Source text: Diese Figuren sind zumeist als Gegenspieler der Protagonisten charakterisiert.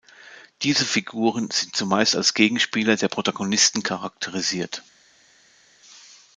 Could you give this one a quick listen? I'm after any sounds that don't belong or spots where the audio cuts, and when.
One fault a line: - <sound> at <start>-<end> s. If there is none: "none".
none